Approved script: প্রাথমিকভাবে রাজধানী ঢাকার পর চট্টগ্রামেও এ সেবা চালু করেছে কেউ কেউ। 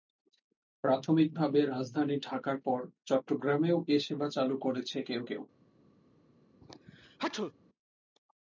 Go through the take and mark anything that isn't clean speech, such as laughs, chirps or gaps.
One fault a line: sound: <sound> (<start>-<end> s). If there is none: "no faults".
sound: sneeze (6.6-7.5 s)